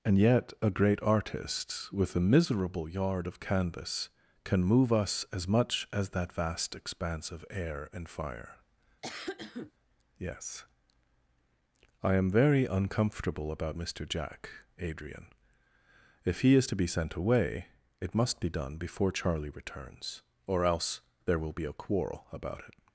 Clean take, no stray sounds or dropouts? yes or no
no